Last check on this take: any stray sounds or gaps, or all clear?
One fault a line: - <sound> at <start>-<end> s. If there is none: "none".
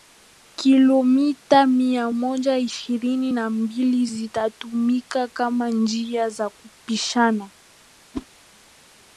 - whoosh at 8.1-8.3 s